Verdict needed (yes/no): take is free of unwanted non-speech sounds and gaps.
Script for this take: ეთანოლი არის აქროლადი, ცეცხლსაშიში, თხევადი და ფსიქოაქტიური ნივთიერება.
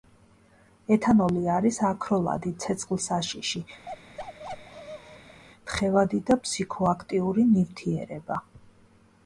no